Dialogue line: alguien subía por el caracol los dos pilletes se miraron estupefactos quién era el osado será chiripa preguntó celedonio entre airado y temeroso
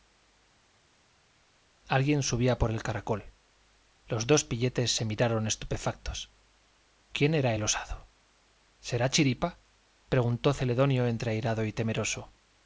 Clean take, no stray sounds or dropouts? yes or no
yes